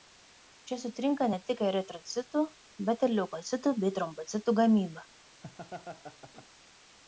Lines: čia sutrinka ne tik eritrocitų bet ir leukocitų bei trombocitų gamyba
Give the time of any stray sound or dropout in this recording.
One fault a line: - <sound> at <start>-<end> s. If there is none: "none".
- laugh at 5.4-6.5 s